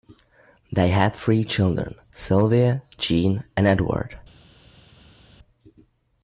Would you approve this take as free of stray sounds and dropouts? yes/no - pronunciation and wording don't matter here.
yes